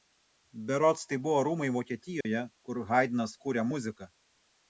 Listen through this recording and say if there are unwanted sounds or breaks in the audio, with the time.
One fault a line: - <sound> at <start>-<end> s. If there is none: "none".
- dropout at 2.2-2.3 s